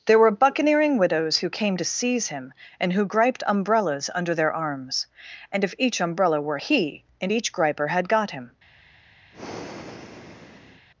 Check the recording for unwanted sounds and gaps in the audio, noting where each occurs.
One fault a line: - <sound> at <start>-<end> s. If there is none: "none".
- breath at 9.3-10.9 s